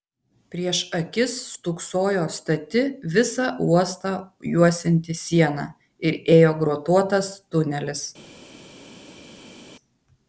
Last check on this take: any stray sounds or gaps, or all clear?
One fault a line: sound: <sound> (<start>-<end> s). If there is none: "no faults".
no faults